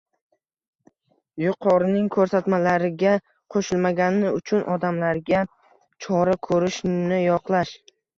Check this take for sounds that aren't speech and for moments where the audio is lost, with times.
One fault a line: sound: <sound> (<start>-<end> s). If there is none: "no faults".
no faults